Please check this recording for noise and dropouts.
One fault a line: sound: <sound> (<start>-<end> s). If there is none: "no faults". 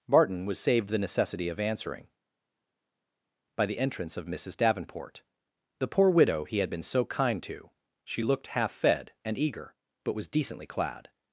no faults